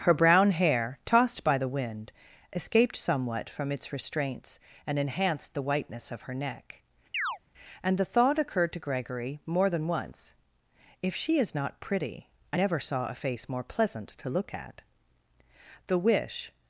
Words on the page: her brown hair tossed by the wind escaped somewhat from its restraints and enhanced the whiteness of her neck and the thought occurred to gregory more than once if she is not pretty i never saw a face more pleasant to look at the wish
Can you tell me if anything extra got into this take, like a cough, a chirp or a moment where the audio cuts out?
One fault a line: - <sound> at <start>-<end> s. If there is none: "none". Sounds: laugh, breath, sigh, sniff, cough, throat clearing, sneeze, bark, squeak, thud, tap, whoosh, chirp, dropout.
- chirp at 7.1-7.4 s